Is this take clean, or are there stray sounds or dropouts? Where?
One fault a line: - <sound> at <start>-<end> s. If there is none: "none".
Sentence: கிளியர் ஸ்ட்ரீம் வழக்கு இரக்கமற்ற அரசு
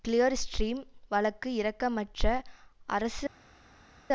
none